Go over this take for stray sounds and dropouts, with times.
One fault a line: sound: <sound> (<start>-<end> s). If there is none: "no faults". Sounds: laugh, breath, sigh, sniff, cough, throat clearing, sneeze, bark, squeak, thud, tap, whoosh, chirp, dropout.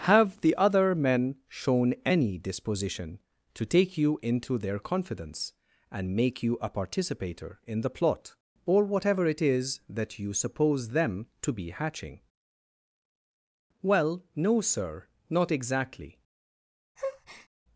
sound: breath (17.0-17.5 s)